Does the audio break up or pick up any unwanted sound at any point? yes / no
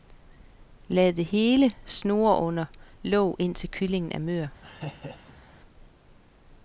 yes